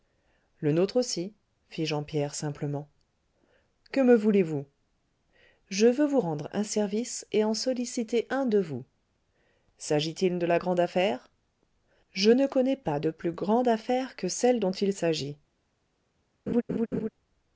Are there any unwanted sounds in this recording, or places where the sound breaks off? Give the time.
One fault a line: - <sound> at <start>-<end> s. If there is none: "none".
- laugh at 16.5-17.1 s